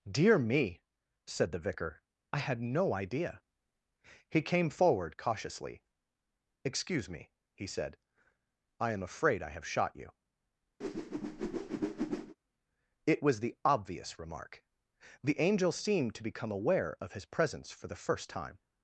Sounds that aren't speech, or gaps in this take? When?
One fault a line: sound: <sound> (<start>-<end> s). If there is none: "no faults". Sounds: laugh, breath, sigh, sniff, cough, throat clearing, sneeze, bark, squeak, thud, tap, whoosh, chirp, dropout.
sound: whoosh (10.8-12.4 s)